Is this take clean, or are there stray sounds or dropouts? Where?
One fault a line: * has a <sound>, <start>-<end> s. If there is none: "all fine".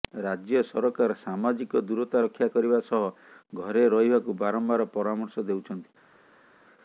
all fine